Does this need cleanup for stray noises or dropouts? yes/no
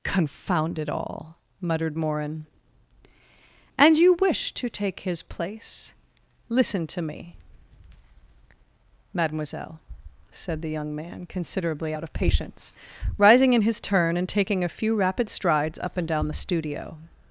no